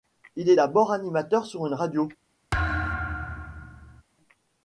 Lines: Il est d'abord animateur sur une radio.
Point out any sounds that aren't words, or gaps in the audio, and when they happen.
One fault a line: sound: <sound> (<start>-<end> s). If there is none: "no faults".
sound: thud (2.5-4.0 s)